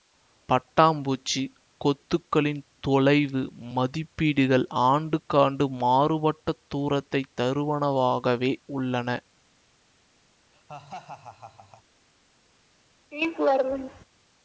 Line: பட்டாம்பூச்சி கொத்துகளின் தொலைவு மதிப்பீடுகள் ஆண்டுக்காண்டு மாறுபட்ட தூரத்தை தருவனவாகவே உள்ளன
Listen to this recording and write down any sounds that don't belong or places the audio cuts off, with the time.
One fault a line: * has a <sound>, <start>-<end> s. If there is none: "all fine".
* has a laugh, 10.5-11.8 s
* has a laugh, 13.1-14.1 s